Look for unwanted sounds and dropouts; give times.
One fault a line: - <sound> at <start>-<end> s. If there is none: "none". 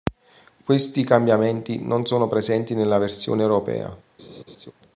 - laugh at 4.2-4.7 s